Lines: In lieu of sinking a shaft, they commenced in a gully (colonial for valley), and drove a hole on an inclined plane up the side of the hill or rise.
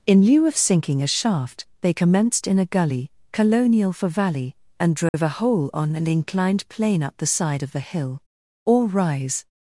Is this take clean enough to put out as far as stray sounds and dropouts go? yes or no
no